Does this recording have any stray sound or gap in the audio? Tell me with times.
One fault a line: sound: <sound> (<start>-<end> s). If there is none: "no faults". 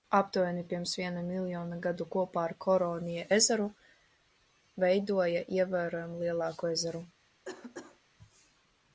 sound: cough (7.4-8.0 s)